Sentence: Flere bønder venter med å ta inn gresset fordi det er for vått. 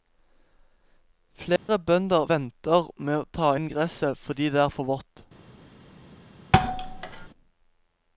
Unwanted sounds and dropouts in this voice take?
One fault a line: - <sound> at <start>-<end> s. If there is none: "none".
- dropout at 1.6-1.7 s
- thud at 6.5-7.3 s